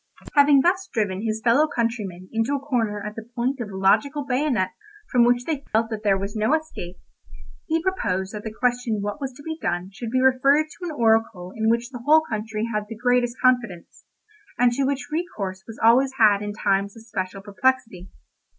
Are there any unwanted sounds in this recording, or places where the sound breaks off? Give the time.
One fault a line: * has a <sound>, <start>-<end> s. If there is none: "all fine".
* has a dropout, 5.7-5.7 s